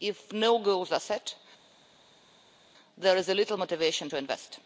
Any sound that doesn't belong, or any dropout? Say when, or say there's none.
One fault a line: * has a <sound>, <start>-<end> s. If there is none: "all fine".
all fine